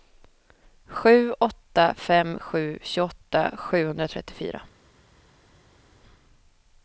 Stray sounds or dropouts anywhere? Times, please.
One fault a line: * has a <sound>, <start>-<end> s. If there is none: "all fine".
all fine